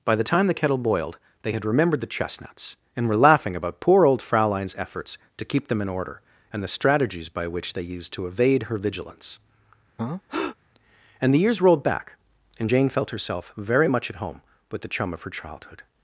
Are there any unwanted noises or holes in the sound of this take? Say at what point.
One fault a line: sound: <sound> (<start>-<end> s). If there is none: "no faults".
sound: breath (10.0-10.6 s)